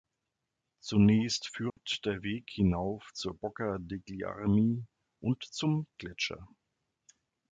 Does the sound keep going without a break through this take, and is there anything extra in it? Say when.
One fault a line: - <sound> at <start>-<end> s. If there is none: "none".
- dropout at 1.7-1.8 s